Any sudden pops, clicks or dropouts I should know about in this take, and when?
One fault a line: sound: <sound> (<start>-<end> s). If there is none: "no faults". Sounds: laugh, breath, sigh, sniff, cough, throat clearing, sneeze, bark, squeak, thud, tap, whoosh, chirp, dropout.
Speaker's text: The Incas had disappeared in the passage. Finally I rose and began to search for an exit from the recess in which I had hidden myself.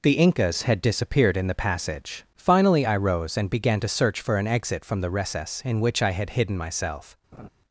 sound: laugh (7.3-7.5 s)